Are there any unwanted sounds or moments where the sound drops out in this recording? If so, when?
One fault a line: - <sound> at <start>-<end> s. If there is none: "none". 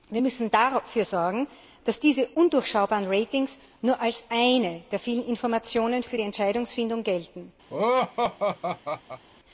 - laugh at 7.7-9.2 s